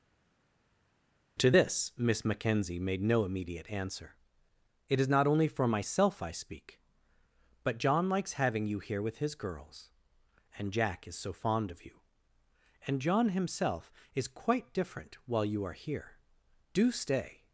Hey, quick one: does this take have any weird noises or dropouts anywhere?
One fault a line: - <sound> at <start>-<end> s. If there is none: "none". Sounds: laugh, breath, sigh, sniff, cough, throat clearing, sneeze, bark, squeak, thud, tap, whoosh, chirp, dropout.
none